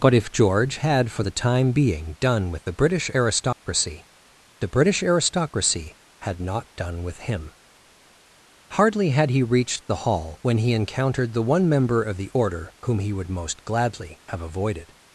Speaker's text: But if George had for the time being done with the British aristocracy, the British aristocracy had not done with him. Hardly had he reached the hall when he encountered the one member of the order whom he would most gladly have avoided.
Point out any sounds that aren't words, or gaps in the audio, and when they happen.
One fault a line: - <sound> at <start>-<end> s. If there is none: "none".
- dropout at 3.5-3.6 s